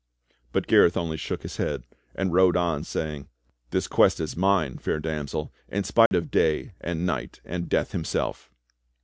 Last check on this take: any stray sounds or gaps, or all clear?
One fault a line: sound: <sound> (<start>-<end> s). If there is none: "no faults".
sound: dropout (6.1-6.1 s)